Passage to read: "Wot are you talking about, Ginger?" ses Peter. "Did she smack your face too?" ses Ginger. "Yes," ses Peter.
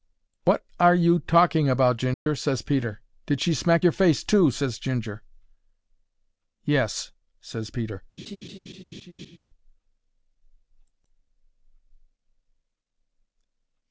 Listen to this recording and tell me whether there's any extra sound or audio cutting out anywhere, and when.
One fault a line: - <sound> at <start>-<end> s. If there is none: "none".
- dropout at 2.1-2.3 s
- laugh at 8.2-9.4 s